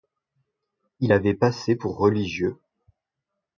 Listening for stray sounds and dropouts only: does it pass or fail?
pass